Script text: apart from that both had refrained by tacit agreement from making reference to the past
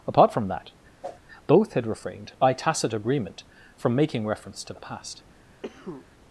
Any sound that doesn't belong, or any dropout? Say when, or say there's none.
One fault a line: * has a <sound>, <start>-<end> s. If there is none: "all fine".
* has a whoosh, 1.0-1.2 s
* has a cough, 5.6-6.1 s